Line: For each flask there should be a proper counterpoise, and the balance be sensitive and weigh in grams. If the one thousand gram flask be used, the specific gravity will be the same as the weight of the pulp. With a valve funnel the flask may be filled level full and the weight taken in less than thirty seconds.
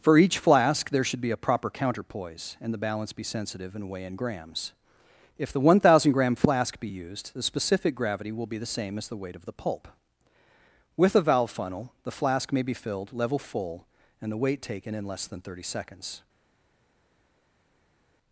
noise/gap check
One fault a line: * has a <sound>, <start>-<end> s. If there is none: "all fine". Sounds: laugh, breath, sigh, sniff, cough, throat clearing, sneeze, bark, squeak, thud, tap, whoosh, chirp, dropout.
all fine